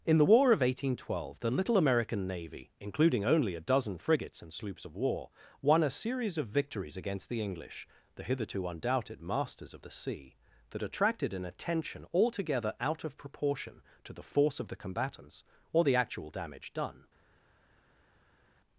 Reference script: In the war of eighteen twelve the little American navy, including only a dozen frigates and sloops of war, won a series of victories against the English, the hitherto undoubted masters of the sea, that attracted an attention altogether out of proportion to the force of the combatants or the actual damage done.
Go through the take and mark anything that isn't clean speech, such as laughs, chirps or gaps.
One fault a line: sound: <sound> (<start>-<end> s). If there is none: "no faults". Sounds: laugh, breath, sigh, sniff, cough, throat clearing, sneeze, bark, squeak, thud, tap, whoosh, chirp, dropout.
no faults